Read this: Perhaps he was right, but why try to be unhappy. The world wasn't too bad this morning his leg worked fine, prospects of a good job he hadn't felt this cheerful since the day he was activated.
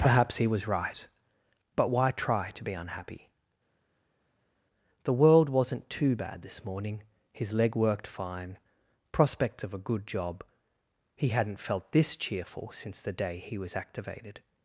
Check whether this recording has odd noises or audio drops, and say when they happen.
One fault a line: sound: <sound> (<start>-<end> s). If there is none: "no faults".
no faults